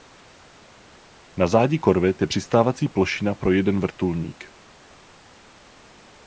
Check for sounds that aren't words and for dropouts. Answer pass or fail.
pass